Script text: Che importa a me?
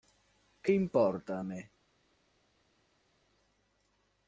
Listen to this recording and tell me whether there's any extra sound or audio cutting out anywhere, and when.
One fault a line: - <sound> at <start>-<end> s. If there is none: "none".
none